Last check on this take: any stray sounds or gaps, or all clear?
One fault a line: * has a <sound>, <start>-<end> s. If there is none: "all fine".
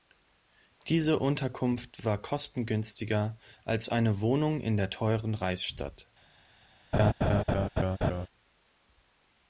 * has a laugh, 6.9-8.3 s